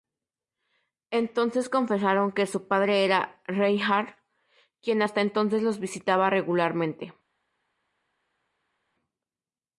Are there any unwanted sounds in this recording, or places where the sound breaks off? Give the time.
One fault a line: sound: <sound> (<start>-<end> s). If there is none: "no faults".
no faults